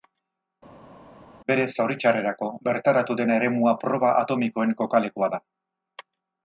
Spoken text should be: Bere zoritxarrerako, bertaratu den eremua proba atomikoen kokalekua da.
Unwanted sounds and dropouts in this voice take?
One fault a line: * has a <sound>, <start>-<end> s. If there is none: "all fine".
all fine